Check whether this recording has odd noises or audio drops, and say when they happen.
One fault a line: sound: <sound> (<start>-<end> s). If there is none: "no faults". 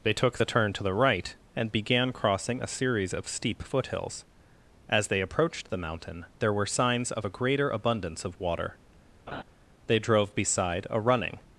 sound: laugh (9.3-9.4 s)